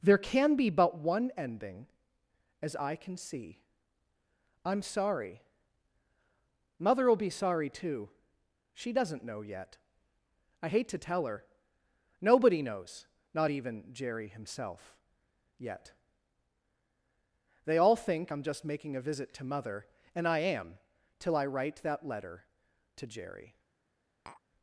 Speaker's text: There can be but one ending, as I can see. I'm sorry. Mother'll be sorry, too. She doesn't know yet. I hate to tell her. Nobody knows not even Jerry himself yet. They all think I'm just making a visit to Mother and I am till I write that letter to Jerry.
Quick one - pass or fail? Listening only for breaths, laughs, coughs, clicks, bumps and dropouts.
fail